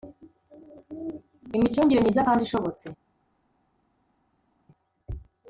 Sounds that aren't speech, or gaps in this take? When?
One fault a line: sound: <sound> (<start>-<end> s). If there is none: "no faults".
no faults